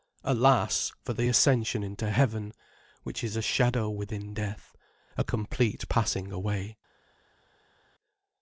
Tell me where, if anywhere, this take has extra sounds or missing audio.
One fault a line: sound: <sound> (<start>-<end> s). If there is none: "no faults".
no faults